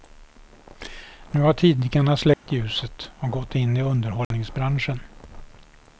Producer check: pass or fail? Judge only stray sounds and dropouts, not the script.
fail